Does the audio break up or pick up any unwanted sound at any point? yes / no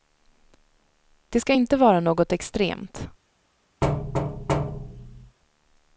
yes